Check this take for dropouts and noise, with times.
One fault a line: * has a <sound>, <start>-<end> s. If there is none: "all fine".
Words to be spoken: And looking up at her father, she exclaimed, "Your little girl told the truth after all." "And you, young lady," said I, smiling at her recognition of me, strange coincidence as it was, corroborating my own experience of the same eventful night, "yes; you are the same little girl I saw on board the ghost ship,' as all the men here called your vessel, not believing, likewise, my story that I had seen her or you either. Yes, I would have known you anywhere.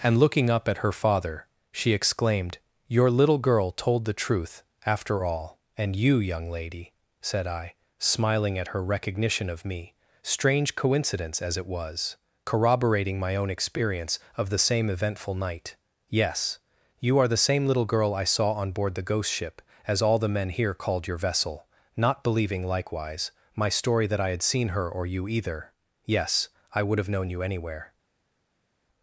all fine